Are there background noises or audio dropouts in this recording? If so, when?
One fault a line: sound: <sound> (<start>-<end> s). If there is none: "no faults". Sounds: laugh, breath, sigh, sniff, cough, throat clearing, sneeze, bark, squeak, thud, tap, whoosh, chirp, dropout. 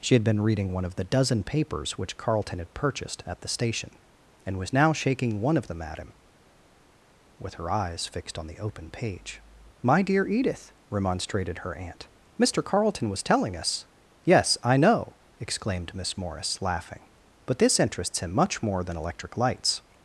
no faults